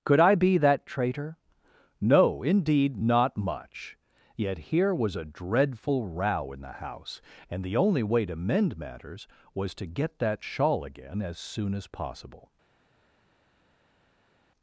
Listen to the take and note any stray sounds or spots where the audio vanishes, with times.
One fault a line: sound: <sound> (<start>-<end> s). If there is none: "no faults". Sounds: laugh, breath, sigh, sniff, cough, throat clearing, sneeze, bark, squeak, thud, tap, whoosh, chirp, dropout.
no faults